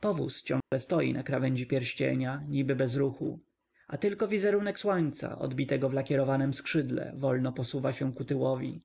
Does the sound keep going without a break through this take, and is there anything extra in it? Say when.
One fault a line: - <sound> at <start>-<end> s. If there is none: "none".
- dropout at 0.6-0.7 s